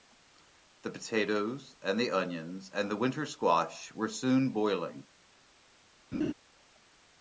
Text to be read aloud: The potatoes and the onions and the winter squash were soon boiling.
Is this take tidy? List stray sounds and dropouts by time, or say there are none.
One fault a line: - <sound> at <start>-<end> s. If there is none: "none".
- laugh at 6.1-6.3 s